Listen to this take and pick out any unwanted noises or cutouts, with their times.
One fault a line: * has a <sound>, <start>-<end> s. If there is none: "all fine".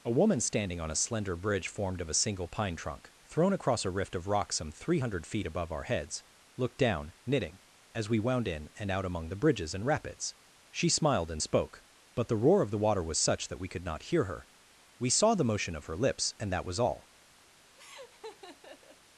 * has a laugh, 17.8-19.0 s